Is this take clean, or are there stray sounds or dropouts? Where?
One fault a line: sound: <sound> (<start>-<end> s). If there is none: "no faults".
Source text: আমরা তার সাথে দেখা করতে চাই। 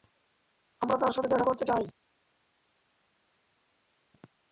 no faults